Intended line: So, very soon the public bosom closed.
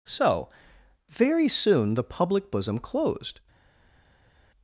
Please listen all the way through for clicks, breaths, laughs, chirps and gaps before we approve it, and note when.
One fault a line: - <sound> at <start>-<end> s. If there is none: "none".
none